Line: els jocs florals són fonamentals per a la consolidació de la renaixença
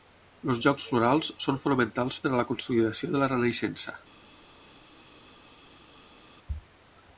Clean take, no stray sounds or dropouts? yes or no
yes